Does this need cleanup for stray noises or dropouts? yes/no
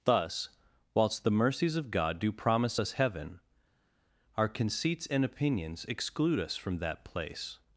no